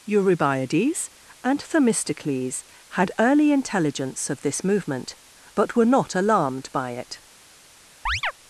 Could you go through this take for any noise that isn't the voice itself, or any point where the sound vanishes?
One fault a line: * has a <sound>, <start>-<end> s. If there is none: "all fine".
* has a chirp, 8.1-8.3 s